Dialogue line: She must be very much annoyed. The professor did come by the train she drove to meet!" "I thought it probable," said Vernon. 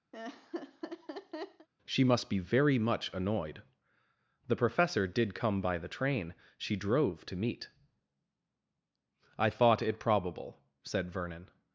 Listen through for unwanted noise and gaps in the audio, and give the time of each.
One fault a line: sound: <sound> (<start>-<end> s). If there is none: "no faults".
sound: laugh (0.1-1.7 s)